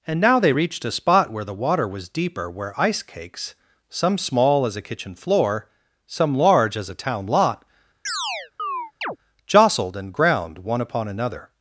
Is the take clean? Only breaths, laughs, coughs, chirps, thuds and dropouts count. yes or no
no